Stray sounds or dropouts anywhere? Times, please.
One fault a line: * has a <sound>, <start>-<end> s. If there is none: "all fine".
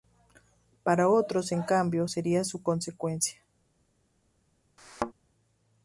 * has a thud, 4.8-5.1 s